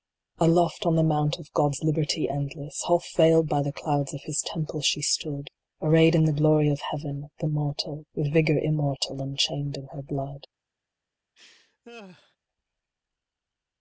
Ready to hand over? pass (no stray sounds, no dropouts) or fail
fail